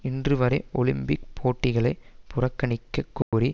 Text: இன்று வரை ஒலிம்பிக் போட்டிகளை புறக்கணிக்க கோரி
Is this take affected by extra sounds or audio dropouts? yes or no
yes